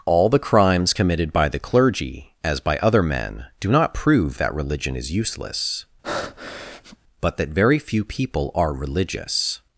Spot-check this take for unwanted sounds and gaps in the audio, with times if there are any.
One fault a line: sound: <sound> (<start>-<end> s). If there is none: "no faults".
sound: breath (6.0-7.0 s)